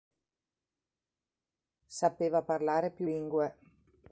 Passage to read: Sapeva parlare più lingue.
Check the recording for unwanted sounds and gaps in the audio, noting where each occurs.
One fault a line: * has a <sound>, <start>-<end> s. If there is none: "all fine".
all fine